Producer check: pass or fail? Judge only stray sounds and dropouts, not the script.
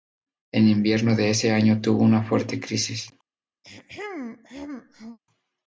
fail